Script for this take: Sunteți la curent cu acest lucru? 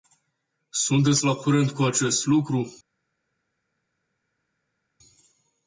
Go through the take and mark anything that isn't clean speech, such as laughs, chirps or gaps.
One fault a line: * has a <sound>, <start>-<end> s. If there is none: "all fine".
all fine